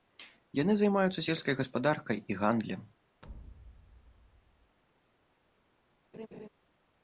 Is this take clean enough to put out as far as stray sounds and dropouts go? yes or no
no